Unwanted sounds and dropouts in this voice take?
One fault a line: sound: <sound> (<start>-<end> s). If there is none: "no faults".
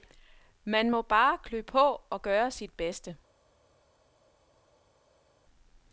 no faults